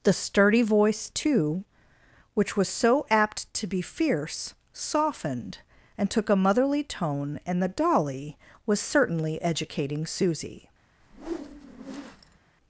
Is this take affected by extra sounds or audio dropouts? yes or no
yes